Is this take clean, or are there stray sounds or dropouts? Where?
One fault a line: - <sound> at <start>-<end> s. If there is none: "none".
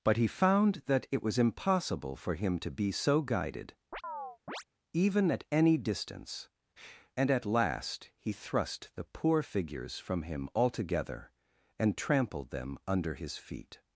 - chirp at 3.9-4.6 s